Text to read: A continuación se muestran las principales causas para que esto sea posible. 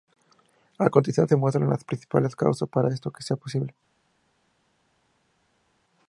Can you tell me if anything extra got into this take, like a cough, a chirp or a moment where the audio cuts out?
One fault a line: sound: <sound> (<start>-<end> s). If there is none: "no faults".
no faults